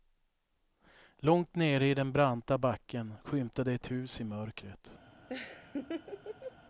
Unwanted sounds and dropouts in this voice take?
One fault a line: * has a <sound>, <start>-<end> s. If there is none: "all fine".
* has a laugh, 5.3-6.6 s